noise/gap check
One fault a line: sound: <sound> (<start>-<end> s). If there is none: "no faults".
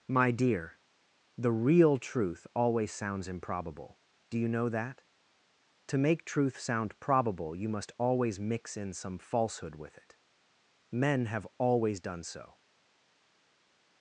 no faults